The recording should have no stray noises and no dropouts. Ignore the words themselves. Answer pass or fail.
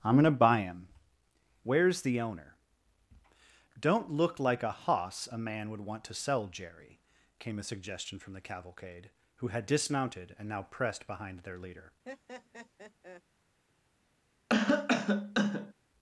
fail